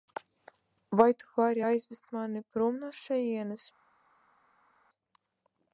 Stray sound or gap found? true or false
false